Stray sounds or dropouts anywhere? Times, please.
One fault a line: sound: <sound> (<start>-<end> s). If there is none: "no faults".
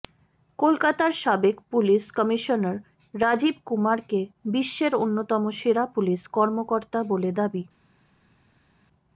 no faults